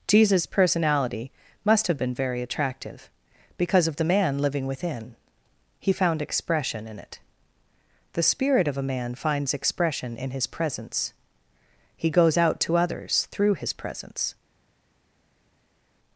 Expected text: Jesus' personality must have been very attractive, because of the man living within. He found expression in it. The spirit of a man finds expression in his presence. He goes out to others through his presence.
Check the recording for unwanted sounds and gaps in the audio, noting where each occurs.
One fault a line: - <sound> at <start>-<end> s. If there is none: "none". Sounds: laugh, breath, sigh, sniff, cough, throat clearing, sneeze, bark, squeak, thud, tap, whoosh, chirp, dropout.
none